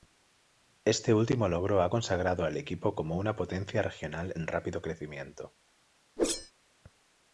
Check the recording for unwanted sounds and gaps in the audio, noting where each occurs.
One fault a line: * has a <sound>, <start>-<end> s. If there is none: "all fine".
* has a whoosh, 6.2-6.5 s